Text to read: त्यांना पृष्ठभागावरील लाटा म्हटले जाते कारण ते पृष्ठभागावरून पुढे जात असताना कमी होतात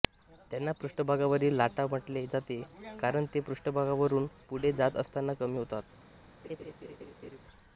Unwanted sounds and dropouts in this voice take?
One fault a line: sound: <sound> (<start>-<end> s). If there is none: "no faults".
sound: laugh (6.4-7.4 s)